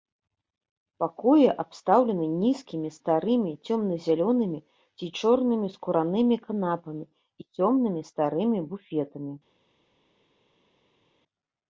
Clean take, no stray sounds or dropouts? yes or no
yes